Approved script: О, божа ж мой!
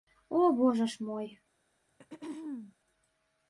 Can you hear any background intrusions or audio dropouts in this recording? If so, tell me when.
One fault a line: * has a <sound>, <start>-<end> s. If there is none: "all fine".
* has a throat clearing, 1.9-2.7 s